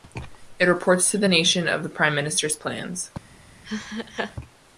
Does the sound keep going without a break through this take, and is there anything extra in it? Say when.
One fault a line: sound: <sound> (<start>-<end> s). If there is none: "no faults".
sound: laugh (3.6-4.4 s)